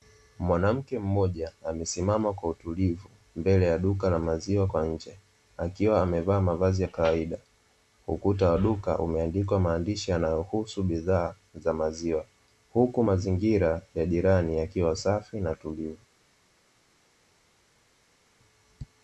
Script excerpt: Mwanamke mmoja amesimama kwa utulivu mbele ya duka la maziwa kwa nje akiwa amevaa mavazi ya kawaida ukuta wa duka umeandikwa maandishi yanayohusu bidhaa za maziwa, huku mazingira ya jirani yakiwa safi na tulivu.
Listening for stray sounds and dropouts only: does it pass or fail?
pass